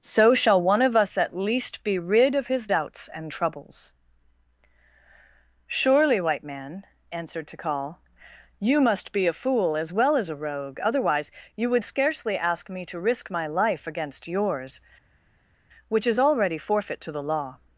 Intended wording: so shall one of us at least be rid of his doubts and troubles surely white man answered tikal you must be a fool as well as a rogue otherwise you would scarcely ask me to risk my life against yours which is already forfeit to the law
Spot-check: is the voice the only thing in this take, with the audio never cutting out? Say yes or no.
yes